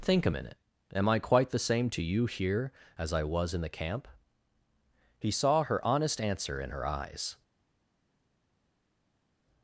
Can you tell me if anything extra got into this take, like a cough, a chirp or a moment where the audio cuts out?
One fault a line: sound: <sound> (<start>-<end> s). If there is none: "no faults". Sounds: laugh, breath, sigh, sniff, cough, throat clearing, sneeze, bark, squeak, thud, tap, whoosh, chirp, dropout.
no faults